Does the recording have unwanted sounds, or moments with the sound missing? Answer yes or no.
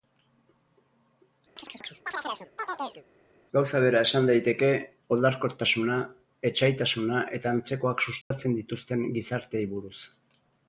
yes